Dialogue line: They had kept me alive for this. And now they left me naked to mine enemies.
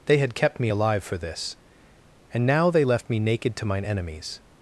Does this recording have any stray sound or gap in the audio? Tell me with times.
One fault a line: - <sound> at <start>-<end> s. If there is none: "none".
none